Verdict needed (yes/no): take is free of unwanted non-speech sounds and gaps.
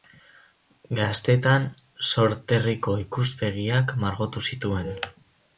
yes